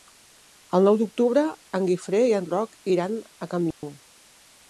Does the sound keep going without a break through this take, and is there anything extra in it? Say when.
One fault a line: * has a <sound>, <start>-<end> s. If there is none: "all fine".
* has a dropout, 3.7-3.8 s